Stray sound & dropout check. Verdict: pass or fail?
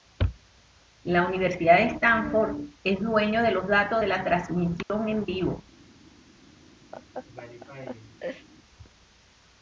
fail